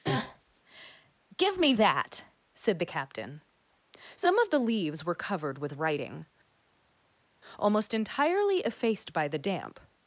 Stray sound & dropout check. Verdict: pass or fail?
pass